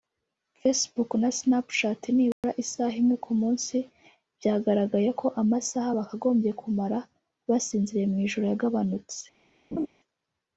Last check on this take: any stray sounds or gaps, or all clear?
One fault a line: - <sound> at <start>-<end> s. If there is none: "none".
- dropout at 2.3-2.4 s
- laugh at 9.7-9.9 s